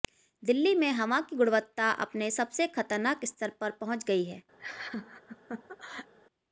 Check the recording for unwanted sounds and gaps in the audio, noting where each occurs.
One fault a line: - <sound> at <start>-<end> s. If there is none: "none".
- laugh at 4.6-6.1 s